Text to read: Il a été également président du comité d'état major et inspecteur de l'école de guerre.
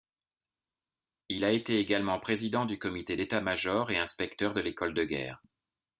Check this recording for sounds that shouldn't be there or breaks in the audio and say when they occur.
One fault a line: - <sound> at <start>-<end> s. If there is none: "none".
none